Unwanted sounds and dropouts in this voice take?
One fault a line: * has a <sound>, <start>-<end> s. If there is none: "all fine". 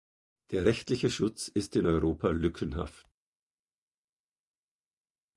all fine